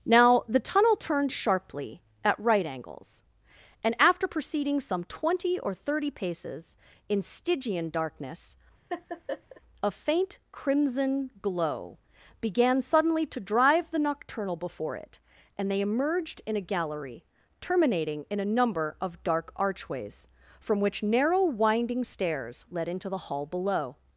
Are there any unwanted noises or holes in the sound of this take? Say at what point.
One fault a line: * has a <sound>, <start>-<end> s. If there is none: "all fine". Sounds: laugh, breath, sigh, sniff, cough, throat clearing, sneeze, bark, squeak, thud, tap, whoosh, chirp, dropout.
* has a laugh, 8.9-9.6 s